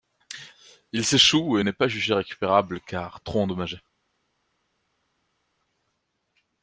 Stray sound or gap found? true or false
false